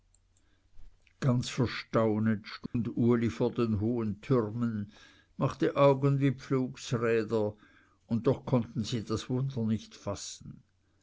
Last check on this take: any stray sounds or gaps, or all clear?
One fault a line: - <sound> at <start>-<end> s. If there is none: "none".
- dropout at 2.7-2.7 s